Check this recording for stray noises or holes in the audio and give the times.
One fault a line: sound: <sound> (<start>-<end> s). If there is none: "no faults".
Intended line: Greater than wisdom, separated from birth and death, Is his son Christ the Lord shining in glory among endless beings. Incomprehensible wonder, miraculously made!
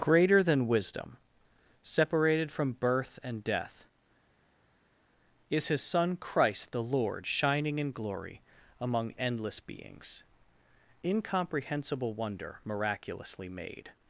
no faults